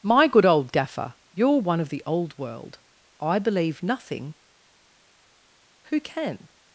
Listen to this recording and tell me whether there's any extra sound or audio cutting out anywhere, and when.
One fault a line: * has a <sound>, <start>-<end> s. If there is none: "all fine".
all fine